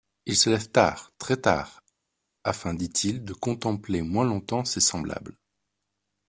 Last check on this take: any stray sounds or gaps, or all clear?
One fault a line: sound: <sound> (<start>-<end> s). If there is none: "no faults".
no faults